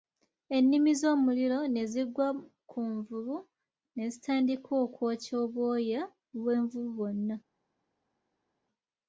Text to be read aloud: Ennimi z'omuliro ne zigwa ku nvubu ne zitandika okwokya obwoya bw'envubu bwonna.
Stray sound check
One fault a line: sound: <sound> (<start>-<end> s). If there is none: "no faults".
no faults